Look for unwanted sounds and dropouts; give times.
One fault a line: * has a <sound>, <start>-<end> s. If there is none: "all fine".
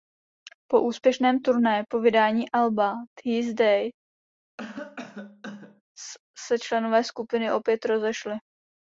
* has a cough, 4.6-5.8 s